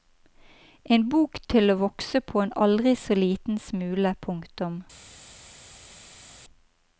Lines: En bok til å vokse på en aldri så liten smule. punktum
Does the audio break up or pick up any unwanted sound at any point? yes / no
no